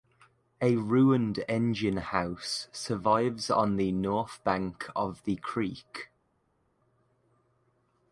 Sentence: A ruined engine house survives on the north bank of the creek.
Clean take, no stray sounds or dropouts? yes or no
yes